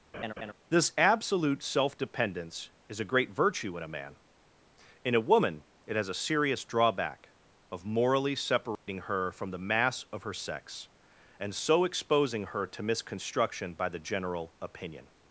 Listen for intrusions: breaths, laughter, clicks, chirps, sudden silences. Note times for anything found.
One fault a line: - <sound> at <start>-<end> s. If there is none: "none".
- laugh at 0.1-0.5 s
- dropout at 8.8-8.9 s